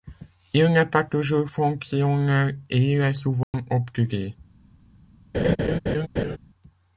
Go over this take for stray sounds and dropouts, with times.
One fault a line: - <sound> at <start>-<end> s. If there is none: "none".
- dropout at 3.4-3.5 s
- laugh at 5.3-6.4 s